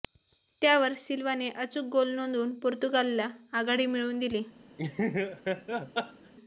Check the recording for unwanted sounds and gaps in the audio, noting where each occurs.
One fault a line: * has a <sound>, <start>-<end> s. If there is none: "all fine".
* has a laugh, 4.8-6.3 s